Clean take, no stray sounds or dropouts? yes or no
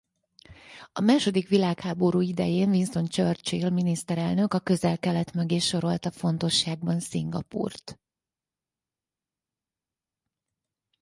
yes